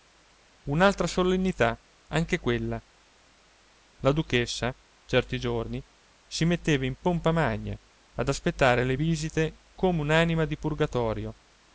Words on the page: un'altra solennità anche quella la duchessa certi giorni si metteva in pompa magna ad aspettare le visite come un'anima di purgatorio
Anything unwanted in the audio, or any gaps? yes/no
no